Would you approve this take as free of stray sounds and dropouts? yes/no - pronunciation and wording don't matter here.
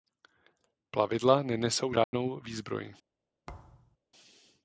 no